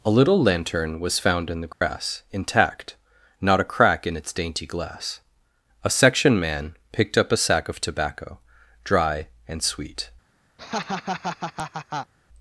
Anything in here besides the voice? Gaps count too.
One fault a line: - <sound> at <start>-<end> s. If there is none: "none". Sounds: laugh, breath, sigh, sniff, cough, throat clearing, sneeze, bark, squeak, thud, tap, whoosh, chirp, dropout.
- dropout at 1.7-1.8 s
- laugh at 10.6-12.1 s